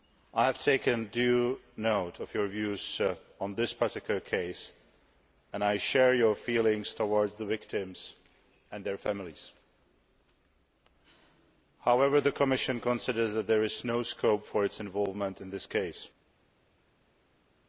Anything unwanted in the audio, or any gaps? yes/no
no